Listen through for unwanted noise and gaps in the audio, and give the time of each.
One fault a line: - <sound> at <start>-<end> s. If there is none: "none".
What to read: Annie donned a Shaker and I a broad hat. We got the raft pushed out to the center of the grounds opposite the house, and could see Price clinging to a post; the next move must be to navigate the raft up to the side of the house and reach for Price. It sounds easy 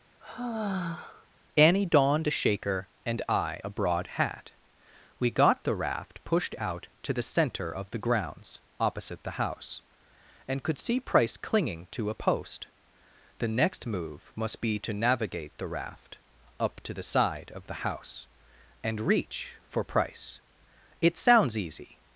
- sigh at 0.2-1.3 s